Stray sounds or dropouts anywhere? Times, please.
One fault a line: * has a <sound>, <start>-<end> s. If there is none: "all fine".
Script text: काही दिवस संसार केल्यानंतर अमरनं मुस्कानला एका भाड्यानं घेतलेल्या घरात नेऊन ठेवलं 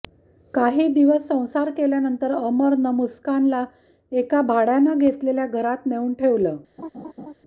* has a laugh, 6.8-7.3 s